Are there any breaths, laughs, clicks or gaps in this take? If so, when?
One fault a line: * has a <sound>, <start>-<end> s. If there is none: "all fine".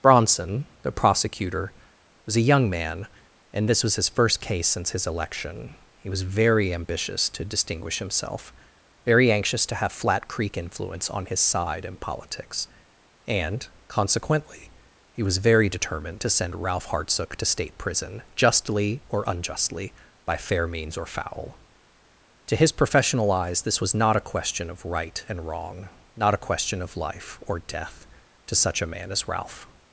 all fine